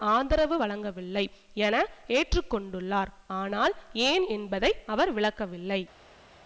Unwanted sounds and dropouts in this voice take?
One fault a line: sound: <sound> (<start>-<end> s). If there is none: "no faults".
no faults